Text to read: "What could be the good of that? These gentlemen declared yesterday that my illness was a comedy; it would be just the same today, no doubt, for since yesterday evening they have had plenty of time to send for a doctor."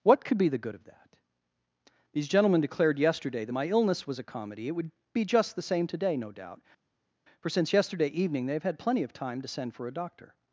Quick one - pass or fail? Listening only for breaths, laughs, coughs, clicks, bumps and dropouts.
pass